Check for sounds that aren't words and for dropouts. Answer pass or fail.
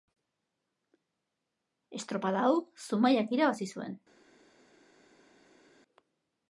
pass